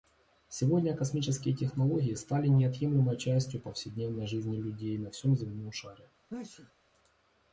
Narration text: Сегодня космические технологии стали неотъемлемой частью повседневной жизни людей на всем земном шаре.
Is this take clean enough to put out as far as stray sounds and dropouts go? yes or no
no